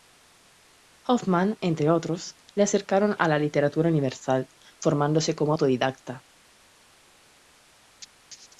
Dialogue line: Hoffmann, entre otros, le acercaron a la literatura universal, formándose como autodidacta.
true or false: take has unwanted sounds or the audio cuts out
false